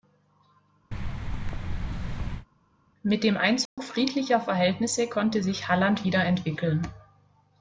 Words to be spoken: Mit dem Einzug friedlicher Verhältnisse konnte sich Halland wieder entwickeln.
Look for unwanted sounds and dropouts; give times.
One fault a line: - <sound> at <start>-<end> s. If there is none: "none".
- thud at 0.9-2.5 s
- dropout at 3.7-3.8 s